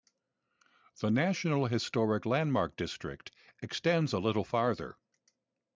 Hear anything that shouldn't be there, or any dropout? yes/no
no